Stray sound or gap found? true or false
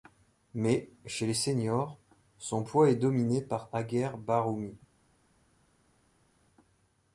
false